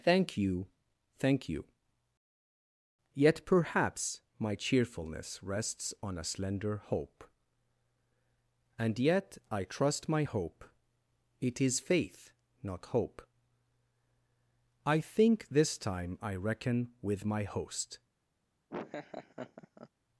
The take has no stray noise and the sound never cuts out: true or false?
false